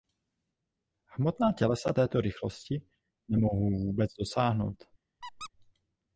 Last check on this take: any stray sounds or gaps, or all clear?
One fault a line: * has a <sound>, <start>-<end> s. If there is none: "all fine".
* has a squeak, 5.2-5.5 s